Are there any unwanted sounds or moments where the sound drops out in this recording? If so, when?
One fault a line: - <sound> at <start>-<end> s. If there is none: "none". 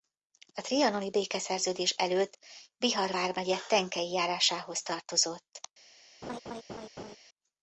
- laugh at 6.2-7.2 s